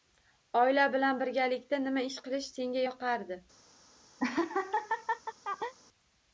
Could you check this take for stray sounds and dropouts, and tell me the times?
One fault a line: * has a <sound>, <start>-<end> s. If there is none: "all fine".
* has a laugh, 4.2-5.7 s